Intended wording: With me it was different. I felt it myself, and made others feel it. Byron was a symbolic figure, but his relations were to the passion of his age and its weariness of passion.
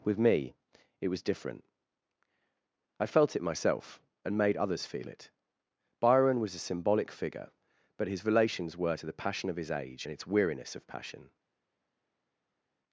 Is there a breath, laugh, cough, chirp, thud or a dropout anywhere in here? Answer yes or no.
no